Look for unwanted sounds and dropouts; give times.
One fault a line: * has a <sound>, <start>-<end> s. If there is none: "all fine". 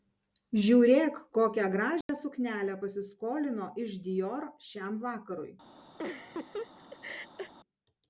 * has a dropout, 2.0-2.1 s
* has a laugh, 6.0-7.5 s